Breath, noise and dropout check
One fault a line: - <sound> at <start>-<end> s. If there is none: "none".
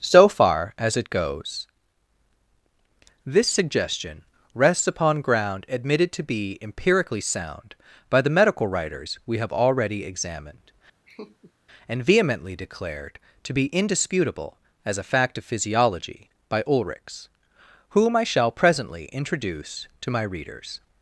- laugh at 11.1-11.5 s